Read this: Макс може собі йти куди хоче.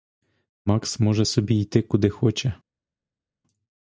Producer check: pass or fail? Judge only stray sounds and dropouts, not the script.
pass